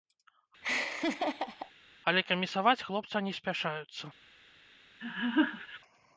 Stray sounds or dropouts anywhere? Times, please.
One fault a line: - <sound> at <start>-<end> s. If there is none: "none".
- laugh at 0.6-1.7 s
- laugh at 5.0-5.8 s